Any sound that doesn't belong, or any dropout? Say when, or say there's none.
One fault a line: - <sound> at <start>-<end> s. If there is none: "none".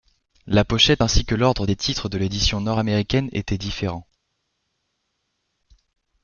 none